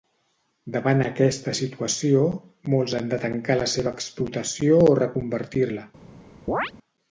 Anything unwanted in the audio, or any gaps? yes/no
yes